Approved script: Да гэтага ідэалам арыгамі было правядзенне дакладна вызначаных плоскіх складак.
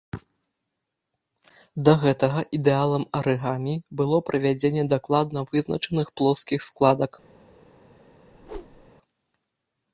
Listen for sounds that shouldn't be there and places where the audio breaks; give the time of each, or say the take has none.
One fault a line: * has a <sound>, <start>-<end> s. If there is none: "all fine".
* has a whoosh, 8.3-8.9 s